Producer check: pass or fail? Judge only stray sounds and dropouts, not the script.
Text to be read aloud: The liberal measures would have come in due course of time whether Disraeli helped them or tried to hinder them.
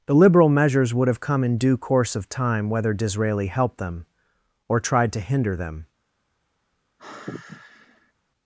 fail